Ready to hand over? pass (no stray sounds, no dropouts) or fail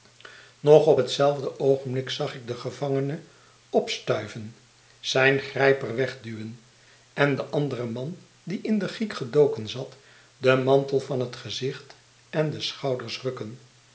pass